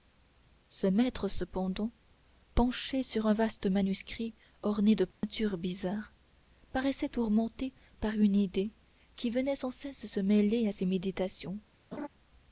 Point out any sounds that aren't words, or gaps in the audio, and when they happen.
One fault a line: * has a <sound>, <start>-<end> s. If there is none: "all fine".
* has a dropout, 5.1-5.2 s
* has a laugh, 11.9-12.1 s